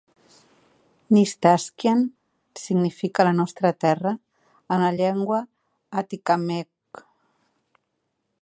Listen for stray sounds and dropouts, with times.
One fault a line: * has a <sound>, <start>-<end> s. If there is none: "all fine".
all fine